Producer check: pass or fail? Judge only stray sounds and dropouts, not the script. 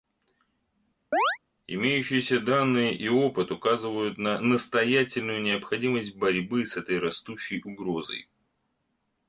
fail